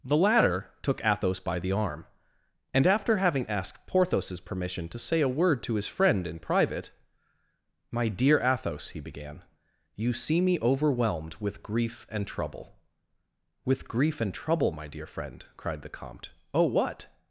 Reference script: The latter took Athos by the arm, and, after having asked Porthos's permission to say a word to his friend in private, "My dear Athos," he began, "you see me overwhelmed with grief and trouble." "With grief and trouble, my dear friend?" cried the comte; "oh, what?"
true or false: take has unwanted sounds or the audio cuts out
false